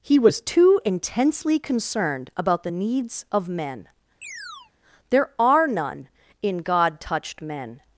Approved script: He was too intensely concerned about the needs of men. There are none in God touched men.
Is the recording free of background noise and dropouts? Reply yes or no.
no